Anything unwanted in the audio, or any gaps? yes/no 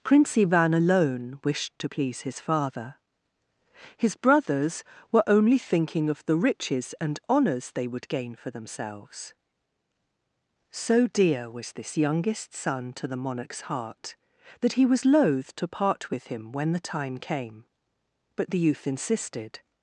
no